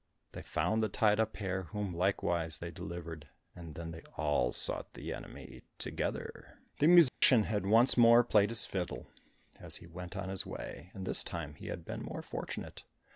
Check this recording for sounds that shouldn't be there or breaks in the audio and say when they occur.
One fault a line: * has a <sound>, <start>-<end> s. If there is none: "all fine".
* has a dropout, 7.1-7.2 s